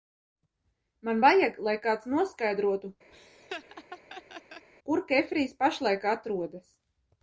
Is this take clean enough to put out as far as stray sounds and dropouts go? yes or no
no